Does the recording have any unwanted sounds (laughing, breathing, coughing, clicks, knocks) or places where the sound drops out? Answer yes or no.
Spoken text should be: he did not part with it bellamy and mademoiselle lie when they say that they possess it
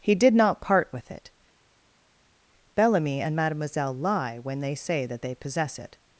no